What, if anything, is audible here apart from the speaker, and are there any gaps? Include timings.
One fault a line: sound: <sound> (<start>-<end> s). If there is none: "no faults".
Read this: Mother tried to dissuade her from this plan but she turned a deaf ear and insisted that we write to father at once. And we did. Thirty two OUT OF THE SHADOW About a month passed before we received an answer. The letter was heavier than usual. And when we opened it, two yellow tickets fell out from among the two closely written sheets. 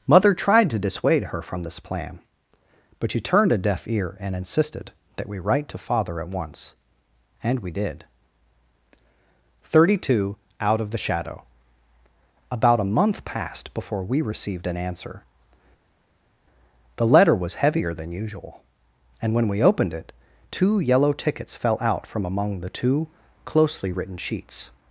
no faults